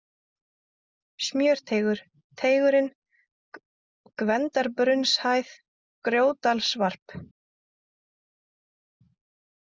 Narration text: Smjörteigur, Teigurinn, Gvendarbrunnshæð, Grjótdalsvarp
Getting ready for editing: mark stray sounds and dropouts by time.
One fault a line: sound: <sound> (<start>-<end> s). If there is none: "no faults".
no faults